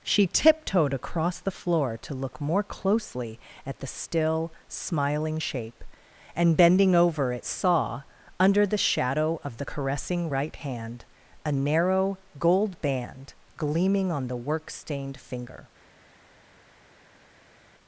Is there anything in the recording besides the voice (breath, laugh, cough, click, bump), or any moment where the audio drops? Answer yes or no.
no